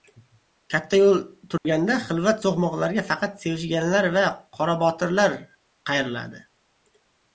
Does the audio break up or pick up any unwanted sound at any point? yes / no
yes